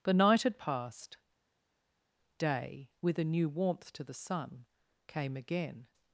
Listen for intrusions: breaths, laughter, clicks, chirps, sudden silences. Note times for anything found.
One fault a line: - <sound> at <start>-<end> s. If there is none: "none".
none